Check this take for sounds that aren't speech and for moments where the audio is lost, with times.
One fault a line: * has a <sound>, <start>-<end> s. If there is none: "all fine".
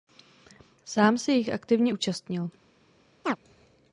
* has a chirp, 3.2-3.4 s